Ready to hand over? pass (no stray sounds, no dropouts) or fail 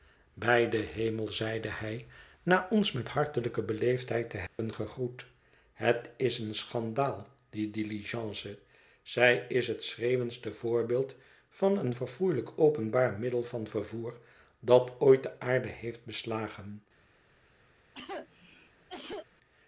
fail